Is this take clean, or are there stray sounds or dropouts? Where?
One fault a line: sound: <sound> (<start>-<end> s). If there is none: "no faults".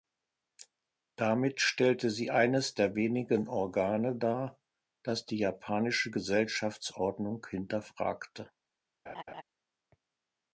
sound: laugh (9.1-9.4 s)